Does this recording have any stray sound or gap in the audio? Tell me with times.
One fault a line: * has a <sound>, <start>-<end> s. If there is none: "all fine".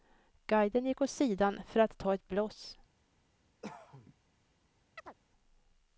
* has a cough, 3.6-4.1 s
* has a chirp, 5.0-5.1 s